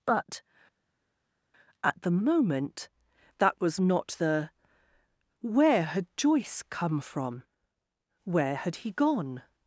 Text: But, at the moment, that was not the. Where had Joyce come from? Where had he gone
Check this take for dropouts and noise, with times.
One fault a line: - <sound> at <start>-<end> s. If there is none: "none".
none